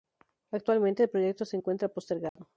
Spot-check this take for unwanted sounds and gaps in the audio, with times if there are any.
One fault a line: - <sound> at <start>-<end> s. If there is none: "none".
- dropout at 2.3-2.4 s